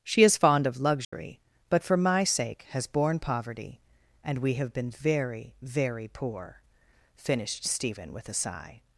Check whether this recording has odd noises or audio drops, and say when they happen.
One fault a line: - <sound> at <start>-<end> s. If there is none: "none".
- dropout at 1.0-1.1 s